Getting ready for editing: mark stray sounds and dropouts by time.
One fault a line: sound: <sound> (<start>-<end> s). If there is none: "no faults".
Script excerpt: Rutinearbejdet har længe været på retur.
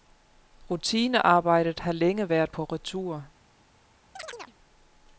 sound: chirp (4.2-4.6 s)